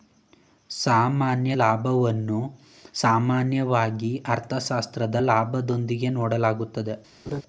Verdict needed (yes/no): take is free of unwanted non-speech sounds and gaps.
no